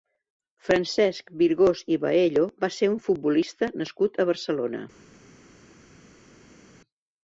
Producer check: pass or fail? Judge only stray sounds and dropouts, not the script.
pass